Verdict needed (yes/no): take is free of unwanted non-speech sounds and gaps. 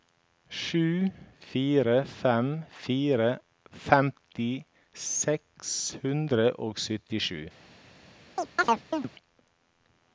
no